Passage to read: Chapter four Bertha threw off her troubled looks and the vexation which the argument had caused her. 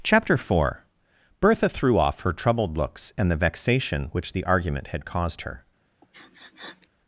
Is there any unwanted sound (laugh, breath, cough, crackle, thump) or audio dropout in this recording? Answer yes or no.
yes